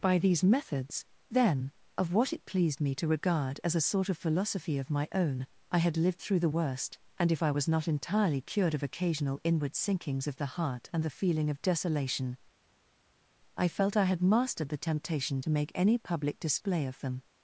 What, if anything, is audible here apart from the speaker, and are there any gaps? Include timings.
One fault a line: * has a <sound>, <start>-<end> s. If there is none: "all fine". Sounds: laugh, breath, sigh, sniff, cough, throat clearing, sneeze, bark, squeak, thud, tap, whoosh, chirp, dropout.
all fine